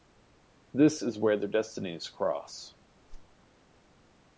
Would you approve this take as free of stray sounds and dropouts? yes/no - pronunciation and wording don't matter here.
no